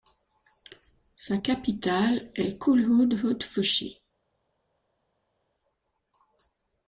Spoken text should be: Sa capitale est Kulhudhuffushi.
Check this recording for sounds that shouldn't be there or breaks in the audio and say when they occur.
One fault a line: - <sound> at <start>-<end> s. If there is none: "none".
none